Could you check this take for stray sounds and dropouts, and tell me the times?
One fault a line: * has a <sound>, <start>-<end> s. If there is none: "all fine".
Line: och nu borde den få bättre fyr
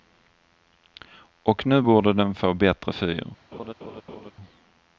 * has a laugh, 3.5-4.3 s